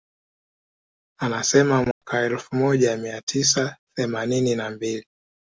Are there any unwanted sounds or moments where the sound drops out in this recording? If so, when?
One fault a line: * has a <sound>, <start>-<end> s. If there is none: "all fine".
* has a dropout, 1.9-2.0 s